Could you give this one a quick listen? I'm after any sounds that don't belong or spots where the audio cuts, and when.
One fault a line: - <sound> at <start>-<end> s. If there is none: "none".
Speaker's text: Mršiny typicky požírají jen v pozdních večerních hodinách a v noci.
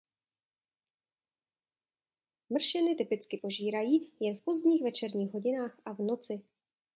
none